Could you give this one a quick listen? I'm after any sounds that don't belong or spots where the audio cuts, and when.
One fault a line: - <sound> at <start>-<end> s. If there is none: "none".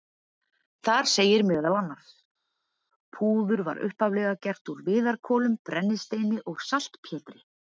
none